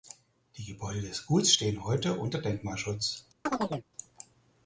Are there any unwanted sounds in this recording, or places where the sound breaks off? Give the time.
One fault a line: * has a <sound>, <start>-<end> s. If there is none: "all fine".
* has a chirp, 3.5-3.9 s